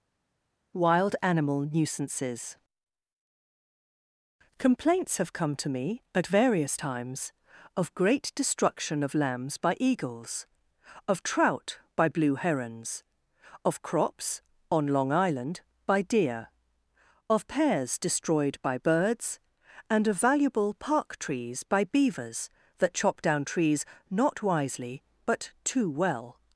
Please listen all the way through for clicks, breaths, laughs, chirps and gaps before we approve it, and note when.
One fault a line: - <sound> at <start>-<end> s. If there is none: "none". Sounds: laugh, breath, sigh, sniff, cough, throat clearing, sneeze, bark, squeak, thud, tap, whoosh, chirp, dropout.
none